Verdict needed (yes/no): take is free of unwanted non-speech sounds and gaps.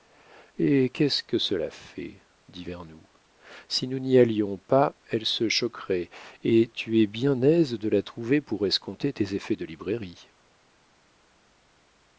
yes